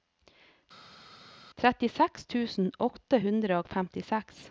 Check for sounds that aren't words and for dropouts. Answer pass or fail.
pass